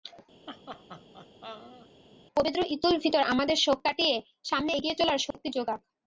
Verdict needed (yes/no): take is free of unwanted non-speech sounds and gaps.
no